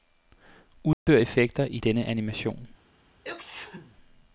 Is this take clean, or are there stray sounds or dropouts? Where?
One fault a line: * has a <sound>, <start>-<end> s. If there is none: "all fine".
* has a dropout, 0.9-1.1 s
* has a sneeze, 3.2-4.0 s